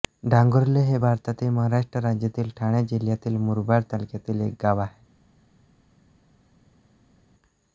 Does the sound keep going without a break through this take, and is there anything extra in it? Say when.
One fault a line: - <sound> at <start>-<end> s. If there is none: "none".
none